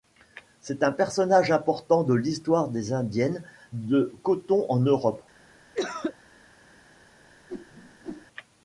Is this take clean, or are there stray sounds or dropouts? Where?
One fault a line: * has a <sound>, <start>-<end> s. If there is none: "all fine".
* has a cough, 5.7-6.2 s
* has a whoosh, 7.5-8.3 s